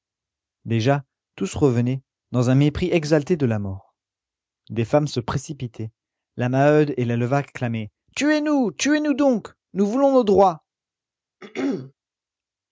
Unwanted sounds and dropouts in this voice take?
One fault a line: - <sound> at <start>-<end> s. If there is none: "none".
- throat clearing at 11.4-11.9 s